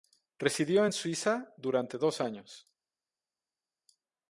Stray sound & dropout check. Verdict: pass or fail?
pass